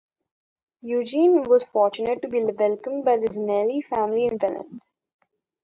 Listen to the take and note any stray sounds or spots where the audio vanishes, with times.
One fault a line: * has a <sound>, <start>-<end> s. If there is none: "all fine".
all fine